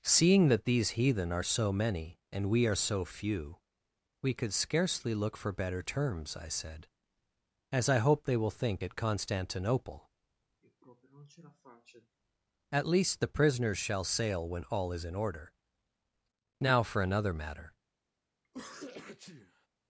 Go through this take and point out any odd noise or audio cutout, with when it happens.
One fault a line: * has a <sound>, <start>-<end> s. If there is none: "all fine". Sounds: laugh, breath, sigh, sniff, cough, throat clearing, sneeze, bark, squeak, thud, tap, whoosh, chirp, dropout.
* has a sigh, 10.6-12.2 s
* has a sneeze, 18.4-19.7 s